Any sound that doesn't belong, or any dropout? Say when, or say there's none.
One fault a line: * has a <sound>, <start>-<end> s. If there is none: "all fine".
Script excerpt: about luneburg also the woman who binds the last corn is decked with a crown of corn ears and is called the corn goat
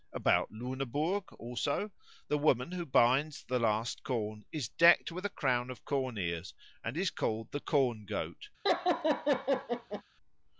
* has a laugh, 8.6-10.0 s